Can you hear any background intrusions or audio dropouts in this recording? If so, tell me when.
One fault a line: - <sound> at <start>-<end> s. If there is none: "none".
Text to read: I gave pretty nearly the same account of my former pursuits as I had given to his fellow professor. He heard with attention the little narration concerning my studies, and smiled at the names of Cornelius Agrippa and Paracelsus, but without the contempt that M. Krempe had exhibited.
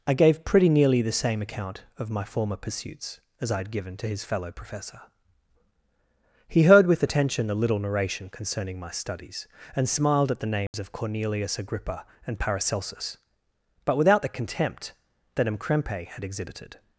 - dropout at 10.7-10.7 s